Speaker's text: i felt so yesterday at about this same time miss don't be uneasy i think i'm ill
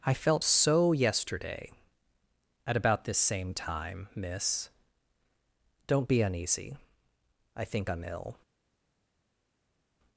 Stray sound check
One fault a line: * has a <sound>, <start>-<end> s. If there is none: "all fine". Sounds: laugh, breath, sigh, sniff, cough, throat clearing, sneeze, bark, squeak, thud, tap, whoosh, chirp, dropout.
all fine